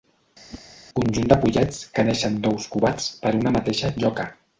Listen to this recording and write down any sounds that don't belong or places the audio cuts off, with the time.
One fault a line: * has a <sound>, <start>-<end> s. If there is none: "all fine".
* has a whoosh, 0.5-0.6 s